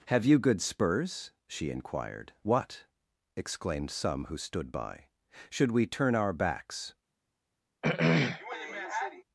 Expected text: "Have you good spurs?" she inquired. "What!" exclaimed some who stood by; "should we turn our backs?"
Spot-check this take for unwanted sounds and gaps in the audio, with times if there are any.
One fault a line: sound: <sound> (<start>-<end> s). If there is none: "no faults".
sound: throat clearing (7.8-9.2 s)